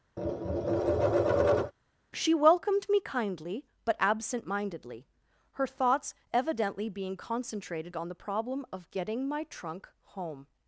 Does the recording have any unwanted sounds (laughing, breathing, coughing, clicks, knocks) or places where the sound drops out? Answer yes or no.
yes